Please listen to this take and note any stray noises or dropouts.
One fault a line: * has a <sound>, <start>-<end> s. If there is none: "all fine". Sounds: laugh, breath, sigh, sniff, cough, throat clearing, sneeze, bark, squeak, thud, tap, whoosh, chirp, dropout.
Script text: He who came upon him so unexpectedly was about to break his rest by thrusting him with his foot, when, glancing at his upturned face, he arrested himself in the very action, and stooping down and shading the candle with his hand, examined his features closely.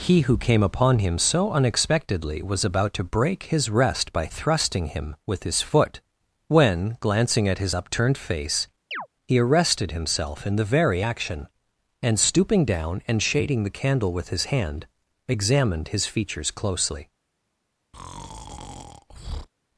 * has a chirp, 8.9-9.1 s
* has a breath, 17.9-19.5 s